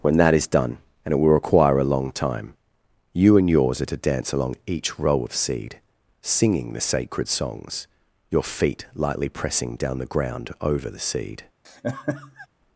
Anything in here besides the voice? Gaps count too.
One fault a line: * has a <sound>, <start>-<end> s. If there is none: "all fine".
* has a laugh, 11.6-12.5 s